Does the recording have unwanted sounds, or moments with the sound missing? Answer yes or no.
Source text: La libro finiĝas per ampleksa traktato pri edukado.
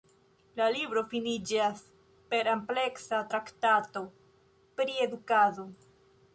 no